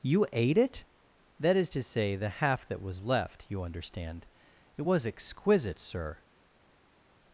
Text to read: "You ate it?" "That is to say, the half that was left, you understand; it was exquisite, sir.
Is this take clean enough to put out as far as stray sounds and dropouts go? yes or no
yes